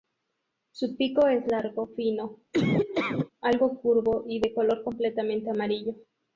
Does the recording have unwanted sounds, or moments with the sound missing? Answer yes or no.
yes